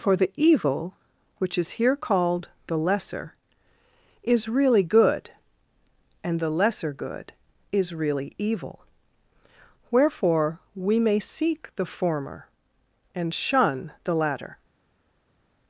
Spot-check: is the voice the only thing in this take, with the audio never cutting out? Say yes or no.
yes